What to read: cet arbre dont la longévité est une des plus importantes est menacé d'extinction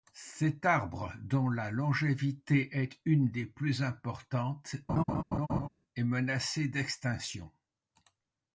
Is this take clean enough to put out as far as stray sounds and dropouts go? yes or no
no